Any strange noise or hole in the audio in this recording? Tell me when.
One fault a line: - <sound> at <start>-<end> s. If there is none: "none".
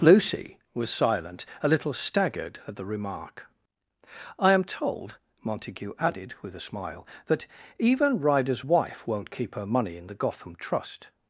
none